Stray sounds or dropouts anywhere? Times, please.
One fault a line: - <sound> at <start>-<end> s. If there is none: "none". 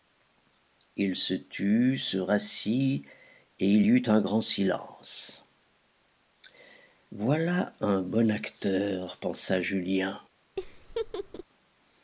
- laugh at 10.6-11.4 s